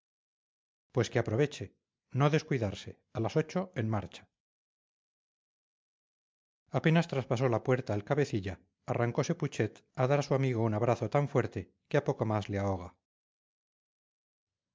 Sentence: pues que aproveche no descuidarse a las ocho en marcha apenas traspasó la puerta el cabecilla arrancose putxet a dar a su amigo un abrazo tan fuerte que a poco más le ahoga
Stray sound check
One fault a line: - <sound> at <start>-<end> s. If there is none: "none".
none